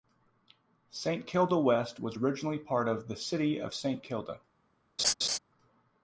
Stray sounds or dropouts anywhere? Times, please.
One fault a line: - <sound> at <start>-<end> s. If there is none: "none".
- laugh at 5.0-5.4 s